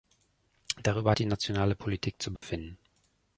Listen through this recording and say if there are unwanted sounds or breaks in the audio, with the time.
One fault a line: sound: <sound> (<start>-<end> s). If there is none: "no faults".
sound: dropout (2.4-2.4 s)